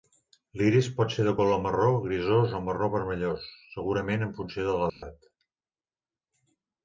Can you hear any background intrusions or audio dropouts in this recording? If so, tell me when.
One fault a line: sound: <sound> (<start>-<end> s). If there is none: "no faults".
sound: dropout (4.9-5.0 s)